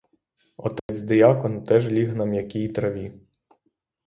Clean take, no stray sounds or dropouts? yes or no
no